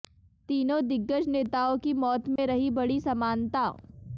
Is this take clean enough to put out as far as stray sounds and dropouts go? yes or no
no